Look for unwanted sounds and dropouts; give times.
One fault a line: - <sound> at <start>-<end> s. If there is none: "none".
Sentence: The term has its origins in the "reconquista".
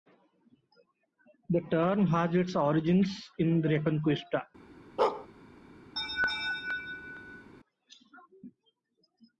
- bark at 5.0-5.3 s
- laugh at 6.0-7.5 s